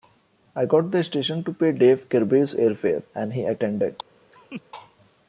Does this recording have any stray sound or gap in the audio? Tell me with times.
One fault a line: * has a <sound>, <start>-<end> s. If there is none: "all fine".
* has a laugh, 4.3-4.6 s